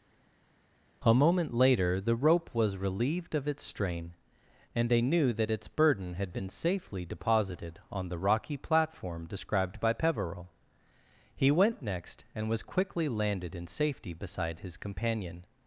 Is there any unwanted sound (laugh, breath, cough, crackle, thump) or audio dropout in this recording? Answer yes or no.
no